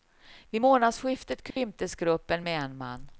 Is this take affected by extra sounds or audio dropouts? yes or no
yes